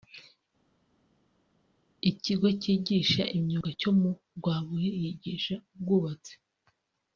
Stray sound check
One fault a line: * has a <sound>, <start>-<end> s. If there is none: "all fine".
all fine